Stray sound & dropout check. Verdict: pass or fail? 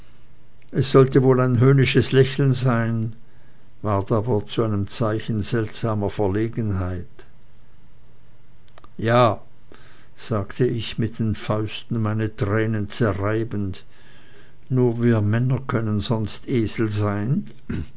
pass